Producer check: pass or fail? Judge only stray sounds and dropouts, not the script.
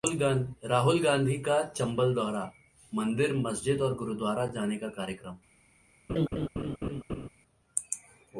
fail